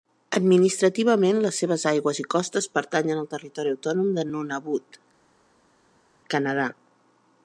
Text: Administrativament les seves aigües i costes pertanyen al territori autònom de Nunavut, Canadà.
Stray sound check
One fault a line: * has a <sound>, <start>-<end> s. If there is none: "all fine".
all fine